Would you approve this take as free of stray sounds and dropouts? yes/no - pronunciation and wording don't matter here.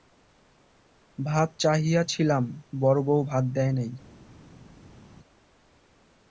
yes